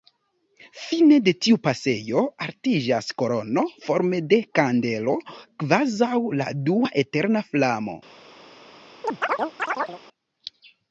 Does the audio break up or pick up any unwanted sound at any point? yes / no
yes